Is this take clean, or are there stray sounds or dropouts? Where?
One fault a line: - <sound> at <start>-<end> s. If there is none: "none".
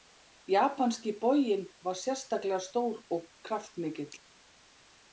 none